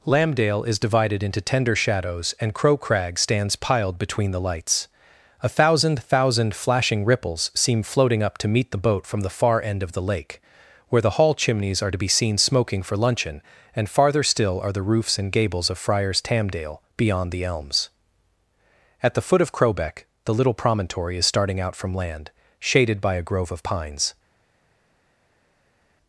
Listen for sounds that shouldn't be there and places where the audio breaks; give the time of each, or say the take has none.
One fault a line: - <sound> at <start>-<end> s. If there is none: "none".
none